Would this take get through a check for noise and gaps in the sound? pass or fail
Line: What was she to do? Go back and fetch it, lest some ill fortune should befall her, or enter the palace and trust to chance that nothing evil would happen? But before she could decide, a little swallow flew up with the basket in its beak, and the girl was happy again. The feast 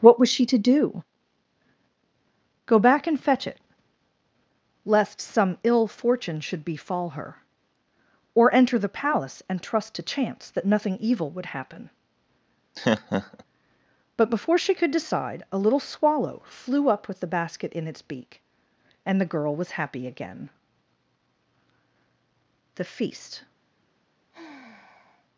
fail